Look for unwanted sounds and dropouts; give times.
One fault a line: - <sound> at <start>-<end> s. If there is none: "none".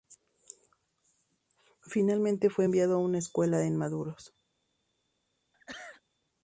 - sneeze at 5.5-6.0 s